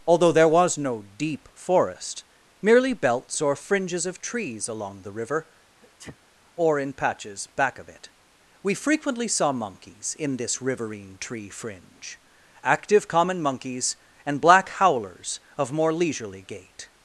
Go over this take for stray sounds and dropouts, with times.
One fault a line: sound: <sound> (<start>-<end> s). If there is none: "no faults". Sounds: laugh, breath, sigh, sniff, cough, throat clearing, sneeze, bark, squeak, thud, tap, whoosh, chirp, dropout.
sound: sneeze (5.8-6.2 s)